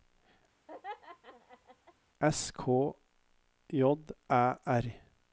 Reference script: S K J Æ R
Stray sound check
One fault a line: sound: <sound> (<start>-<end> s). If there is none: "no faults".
sound: laugh (0.7-1.9 s)